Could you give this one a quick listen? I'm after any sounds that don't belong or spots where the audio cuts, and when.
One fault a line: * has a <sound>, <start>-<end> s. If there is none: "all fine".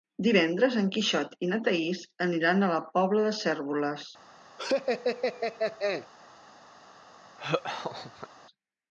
* has a laugh, 4.6-6.1 s
* has a laugh, 7.4-8.3 s